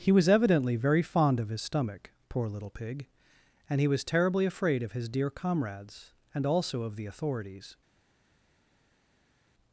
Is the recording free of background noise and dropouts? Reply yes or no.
yes